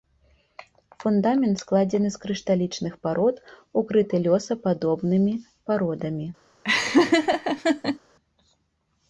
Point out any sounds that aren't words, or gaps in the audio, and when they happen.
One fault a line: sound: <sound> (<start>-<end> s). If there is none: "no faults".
sound: laugh (6.6-8.0 s)